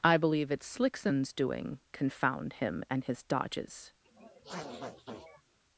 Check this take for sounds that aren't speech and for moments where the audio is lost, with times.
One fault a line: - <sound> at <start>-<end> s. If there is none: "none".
- sniff at 4.0-5.6 s